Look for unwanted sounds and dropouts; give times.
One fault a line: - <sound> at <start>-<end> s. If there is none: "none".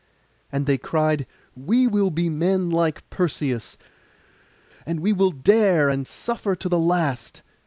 none